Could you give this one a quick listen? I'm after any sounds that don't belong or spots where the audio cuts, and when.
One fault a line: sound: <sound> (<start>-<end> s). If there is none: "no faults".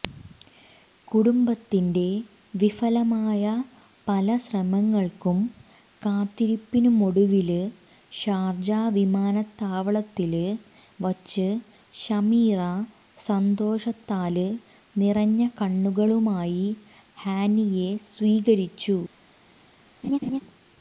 sound: laugh (20.0-20.4 s)